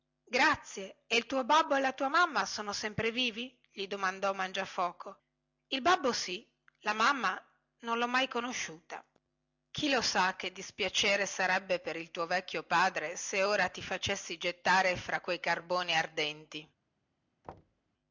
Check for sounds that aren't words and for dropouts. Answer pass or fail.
fail